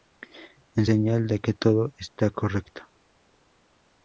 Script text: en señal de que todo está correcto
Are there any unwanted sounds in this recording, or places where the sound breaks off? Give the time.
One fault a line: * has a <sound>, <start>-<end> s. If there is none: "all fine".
all fine